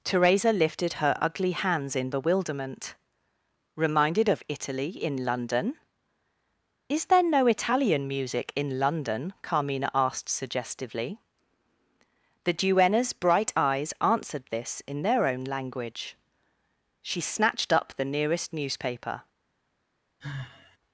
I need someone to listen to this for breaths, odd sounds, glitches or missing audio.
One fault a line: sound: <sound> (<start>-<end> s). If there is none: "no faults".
sound: sigh (20.2-20.8 s)